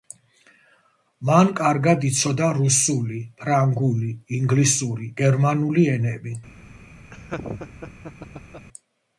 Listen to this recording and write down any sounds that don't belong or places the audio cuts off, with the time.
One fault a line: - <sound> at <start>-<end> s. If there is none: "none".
- laugh at 7.1-8.7 s